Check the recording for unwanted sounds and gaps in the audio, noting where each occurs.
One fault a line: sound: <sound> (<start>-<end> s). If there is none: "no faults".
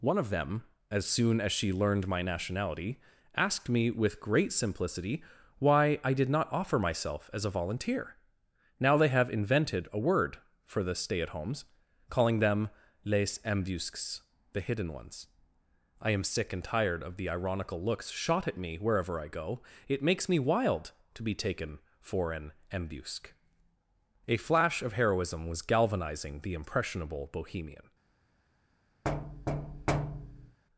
sound: thud (29.0-30.6 s)